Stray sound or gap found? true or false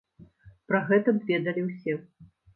false